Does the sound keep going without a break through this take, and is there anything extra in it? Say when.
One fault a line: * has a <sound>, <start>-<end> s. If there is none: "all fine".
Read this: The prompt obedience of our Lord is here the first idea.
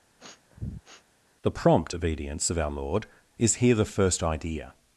* has a sniff, 0.2-1.0 s